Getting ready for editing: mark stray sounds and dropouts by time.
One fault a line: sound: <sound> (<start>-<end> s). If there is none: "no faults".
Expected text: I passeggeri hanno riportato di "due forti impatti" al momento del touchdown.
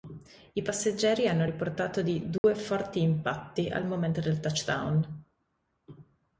sound: dropout (2.4-2.4 s)